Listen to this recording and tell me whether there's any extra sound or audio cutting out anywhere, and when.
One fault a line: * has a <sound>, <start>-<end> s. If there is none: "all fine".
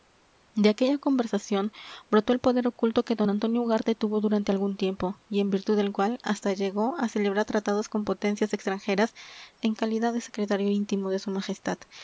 all fine